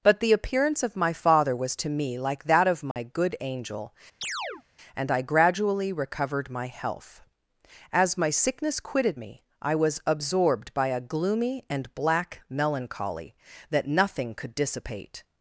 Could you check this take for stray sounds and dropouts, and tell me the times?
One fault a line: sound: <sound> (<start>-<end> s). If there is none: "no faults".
sound: dropout (2.9-3.0 s)
sound: chirp (4.2-4.6 s)